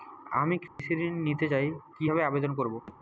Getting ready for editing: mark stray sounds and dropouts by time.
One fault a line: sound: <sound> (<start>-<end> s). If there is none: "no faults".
sound: dropout (0.7-0.8 s)
sound: thud (2.9-3.0 s)